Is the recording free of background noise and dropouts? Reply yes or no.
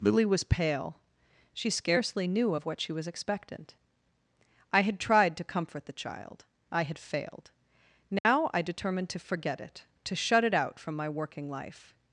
no